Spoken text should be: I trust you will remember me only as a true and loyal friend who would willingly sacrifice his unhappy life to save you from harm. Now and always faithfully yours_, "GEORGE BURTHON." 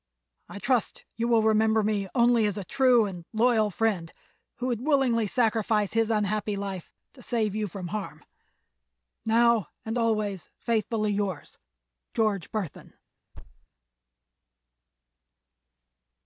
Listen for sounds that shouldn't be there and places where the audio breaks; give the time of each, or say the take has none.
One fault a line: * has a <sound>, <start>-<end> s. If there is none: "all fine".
* has a thud, 13.3-13.7 s